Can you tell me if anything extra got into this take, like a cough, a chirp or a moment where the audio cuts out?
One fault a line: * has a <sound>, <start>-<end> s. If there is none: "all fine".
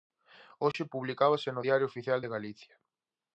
* has a dropout, 0.7-0.7 s